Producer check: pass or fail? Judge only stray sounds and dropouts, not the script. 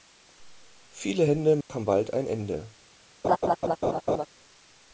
fail